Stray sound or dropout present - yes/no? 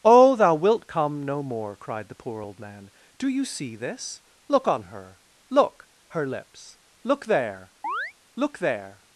yes